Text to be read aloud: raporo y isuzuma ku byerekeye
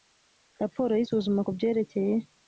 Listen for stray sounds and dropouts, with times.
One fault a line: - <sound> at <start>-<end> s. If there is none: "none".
none